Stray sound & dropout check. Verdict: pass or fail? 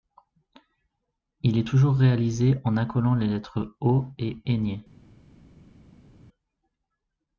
pass